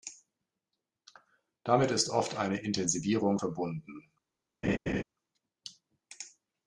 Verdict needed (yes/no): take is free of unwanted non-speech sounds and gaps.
no